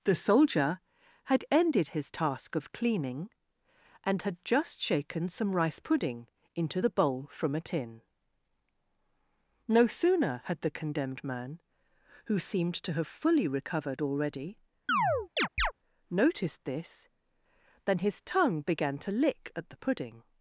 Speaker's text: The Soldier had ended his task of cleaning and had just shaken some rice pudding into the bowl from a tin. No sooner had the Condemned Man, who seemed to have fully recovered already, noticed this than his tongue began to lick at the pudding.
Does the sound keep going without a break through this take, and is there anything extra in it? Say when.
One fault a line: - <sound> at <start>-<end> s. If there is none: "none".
- chirp at 14.9-15.7 s